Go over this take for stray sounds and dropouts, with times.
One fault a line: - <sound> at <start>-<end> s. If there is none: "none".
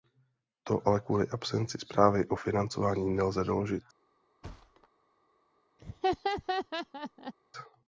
- thud at 4.4-4.9 s
- laugh at 5.8-7.3 s